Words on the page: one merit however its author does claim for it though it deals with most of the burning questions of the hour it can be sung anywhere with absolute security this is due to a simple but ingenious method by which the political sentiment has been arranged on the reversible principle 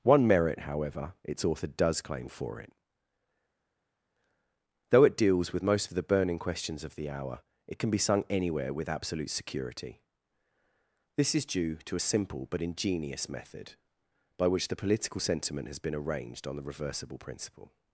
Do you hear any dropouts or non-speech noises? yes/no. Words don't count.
no